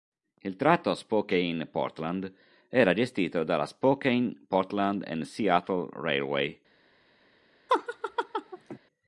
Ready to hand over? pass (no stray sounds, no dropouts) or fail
fail